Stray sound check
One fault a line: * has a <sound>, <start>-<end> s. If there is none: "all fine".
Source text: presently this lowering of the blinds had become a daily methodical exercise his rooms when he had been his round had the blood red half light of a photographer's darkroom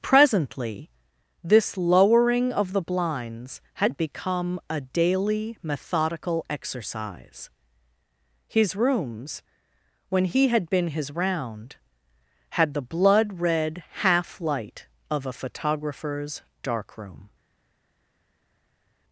all fine